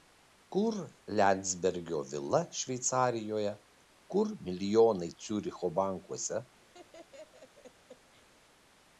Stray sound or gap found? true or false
true